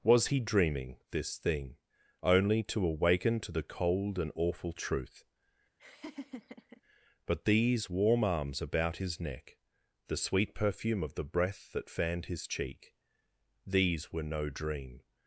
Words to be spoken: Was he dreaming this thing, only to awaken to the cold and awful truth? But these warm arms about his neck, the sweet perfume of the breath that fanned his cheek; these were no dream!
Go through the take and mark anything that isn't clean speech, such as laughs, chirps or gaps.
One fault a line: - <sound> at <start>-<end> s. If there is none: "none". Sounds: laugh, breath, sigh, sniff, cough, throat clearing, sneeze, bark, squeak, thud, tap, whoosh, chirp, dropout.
- laugh at 5.8-6.8 s